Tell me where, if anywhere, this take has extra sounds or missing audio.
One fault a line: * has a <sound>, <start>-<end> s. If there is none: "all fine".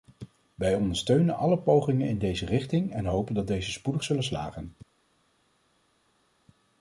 all fine